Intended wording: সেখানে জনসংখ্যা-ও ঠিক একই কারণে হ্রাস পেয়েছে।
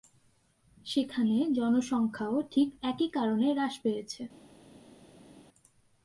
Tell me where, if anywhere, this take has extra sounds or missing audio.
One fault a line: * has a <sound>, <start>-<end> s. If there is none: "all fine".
all fine